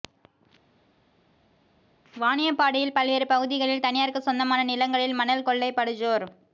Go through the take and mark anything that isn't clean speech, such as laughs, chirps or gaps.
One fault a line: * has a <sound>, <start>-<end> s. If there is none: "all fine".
all fine